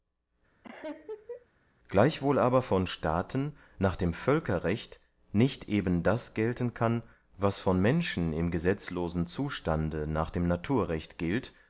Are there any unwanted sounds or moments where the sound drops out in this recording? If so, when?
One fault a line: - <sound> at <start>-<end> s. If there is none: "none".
- laugh at 0.6-1.5 s